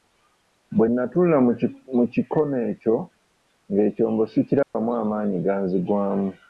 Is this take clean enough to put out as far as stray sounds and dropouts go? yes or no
no